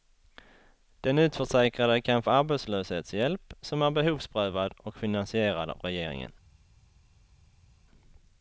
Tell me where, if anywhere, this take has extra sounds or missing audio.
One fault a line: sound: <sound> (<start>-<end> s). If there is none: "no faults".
no faults